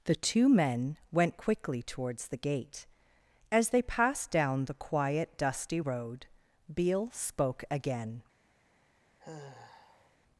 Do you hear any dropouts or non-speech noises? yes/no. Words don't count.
yes